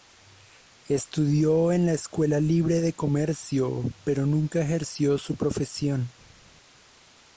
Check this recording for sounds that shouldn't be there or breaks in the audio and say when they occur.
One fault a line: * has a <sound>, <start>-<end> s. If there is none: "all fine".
all fine